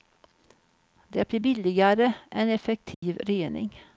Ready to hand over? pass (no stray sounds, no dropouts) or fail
fail